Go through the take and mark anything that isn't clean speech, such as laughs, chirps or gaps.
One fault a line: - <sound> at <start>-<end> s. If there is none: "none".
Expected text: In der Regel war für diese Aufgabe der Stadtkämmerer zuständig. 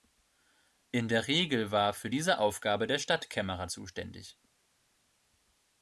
none